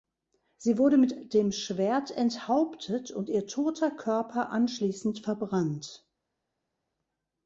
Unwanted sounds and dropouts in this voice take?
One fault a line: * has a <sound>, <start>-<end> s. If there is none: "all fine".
all fine